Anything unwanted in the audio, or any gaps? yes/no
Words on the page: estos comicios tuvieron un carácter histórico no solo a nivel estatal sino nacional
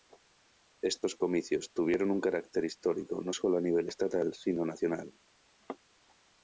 no